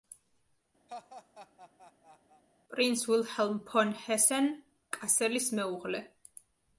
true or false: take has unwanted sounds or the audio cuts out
true